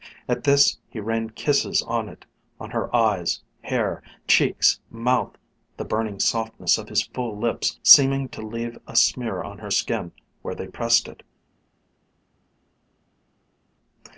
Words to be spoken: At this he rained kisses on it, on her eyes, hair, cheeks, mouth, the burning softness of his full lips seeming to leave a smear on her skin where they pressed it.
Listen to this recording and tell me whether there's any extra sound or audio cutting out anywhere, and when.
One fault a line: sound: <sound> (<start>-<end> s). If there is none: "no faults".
no faults